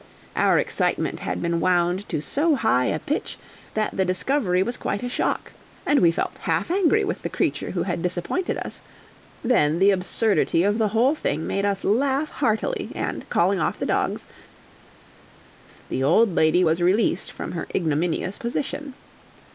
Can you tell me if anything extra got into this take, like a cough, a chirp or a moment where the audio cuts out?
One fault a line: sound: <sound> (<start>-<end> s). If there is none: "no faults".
no faults